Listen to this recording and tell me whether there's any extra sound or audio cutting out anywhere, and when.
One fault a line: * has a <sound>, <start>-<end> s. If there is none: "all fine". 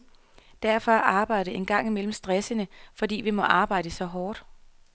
all fine